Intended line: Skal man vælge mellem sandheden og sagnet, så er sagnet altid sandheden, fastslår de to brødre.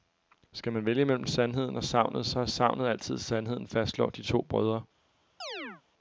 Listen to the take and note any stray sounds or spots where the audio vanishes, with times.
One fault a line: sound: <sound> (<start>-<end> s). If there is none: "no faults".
sound: chirp (5.4-5.8 s)